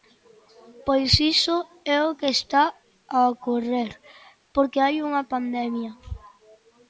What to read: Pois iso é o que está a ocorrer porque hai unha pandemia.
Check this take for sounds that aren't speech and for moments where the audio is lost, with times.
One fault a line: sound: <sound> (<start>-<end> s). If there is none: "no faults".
no faults